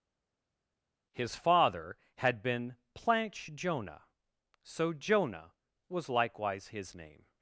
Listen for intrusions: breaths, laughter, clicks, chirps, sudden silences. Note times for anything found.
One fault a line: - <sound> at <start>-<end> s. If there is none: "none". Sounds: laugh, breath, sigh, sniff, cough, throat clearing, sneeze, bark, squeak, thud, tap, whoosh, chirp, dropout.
none